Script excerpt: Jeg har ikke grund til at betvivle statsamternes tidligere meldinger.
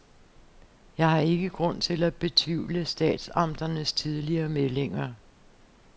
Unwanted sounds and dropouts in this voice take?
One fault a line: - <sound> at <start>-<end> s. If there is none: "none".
none